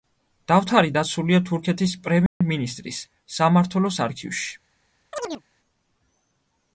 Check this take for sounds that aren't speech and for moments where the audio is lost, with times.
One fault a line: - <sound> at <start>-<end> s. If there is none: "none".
- dropout at 2.3-2.4 s
- chirp at 5.1-5.4 s